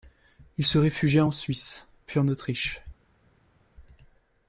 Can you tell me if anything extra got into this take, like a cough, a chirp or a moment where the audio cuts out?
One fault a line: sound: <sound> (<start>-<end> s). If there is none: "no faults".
no faults